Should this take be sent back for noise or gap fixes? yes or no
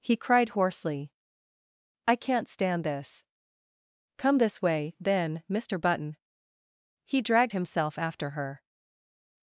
no